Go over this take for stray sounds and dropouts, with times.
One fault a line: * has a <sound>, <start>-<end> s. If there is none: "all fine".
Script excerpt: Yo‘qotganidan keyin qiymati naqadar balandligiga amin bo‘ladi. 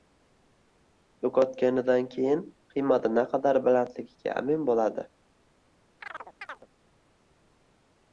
* has a chirp, 6.0-6.7 s